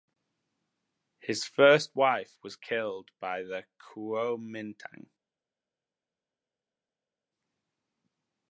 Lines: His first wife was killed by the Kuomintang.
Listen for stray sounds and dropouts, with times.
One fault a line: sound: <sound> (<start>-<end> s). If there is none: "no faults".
no faults